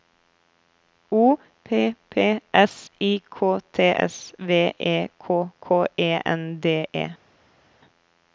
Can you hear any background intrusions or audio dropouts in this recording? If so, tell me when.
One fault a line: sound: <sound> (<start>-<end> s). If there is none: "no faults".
no faults